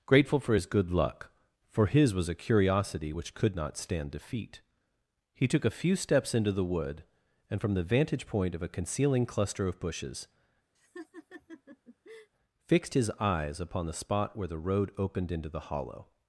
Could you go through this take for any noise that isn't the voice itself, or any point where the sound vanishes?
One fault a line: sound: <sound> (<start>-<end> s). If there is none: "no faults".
sound: laugh (10.7-12.3 s)